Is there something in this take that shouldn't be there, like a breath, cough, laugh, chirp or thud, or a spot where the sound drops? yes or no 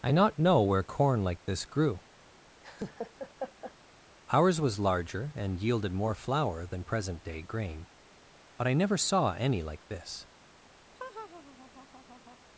yes